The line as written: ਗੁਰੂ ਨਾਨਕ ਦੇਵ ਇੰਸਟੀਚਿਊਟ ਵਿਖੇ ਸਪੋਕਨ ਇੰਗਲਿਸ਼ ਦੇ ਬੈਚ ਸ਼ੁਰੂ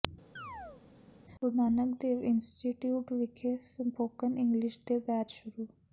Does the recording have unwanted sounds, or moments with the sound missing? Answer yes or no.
yes